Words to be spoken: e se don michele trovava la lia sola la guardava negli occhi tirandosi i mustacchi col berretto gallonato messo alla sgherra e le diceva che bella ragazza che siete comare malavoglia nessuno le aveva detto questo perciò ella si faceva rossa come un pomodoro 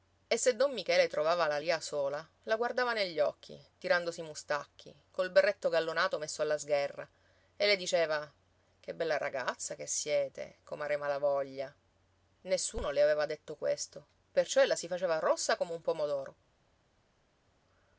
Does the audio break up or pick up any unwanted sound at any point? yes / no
no